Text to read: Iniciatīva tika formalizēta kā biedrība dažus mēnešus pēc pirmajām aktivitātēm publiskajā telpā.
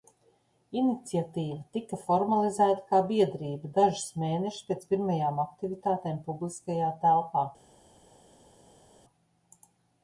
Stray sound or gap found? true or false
false